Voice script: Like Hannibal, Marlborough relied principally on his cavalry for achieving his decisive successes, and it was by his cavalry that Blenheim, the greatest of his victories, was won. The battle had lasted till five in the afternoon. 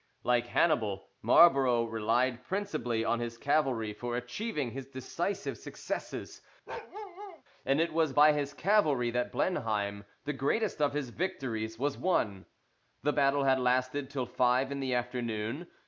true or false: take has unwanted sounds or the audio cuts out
true